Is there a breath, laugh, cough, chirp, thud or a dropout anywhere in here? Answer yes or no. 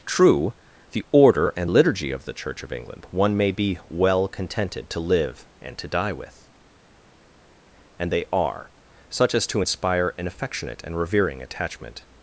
no